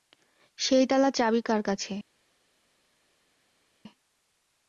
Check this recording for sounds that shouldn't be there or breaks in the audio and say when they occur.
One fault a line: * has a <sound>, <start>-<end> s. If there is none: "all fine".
all fine